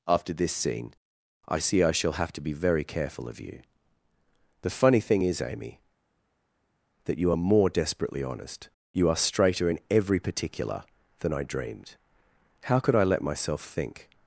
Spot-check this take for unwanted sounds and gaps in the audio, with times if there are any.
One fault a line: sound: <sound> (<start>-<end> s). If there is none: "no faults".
no faults